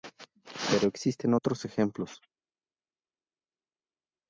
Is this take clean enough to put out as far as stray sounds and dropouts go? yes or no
yes